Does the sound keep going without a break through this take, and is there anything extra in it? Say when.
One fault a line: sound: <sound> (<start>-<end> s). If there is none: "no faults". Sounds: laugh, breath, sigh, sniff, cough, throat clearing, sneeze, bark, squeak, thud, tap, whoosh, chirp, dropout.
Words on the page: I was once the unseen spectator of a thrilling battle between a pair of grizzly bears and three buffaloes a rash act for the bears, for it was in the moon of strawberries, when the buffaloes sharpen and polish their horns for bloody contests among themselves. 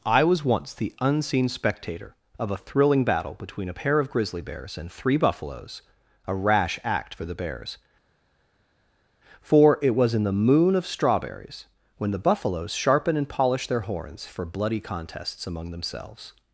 no faults